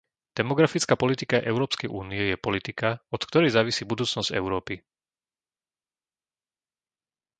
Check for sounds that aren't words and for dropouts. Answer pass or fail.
pass